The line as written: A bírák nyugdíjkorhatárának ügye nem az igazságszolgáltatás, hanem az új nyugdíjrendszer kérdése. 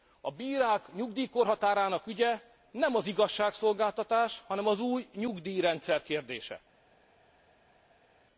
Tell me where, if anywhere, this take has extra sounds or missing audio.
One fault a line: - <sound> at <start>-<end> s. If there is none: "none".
none